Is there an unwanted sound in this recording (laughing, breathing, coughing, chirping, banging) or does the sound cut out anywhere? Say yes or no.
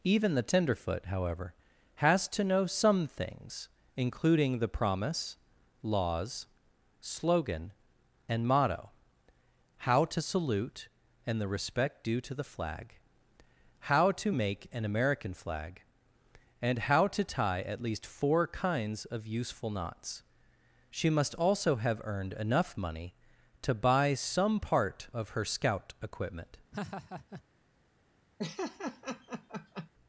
yes